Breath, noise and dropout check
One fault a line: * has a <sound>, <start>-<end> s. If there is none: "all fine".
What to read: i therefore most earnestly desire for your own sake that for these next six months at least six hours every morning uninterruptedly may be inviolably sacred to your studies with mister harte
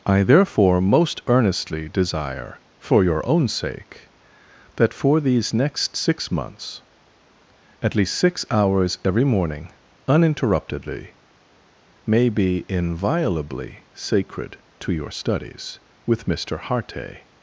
all fine